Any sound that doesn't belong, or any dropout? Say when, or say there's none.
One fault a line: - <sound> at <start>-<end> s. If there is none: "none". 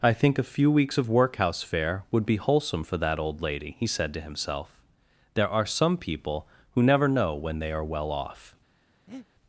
- breath at 9.1-9.3 s